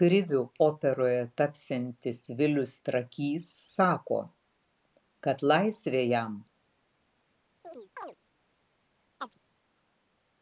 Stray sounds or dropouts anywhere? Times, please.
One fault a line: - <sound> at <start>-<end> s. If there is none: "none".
- chirp at 7.6-8.2 s
- chirp at 9.2-9.4 s